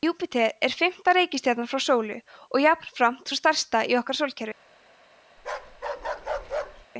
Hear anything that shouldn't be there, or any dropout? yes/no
yes